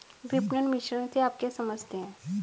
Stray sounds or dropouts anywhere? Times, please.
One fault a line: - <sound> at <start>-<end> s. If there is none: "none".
none